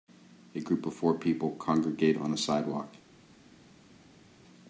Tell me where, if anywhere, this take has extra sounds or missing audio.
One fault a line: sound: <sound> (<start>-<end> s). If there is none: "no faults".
no faults